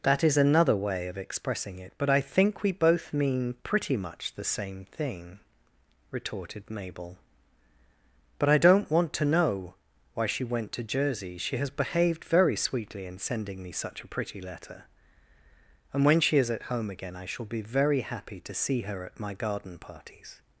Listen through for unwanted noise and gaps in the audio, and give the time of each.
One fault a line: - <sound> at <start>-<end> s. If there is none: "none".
none